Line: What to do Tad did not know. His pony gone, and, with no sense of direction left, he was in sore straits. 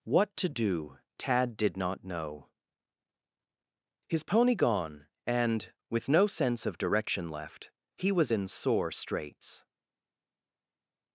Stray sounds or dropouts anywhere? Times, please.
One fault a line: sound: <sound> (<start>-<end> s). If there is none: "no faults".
no faults